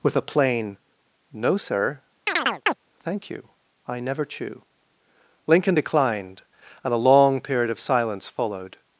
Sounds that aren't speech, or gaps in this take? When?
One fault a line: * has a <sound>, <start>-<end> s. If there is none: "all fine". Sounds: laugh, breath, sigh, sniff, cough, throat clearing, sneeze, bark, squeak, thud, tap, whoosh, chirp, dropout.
* has a chirp, 2.3-2.8 s